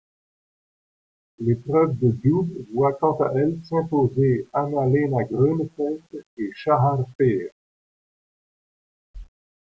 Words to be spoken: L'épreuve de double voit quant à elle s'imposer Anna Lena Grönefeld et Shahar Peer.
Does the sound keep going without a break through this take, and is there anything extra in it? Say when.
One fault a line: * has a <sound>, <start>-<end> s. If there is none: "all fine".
all fine